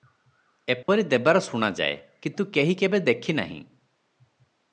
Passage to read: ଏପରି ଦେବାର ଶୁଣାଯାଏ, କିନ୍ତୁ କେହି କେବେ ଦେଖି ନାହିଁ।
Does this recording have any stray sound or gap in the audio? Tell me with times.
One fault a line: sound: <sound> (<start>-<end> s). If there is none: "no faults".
sound: dropout (0.8-0.9 s)